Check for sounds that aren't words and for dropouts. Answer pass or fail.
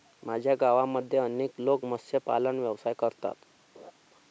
fail